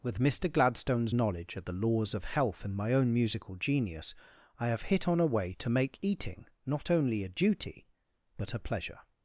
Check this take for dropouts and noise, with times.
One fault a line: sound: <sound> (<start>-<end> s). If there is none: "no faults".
no faults